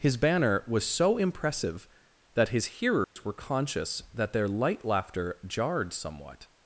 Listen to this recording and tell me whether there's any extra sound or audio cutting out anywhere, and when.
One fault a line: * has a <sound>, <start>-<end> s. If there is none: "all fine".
* has a dropout, 3.0-3.2 s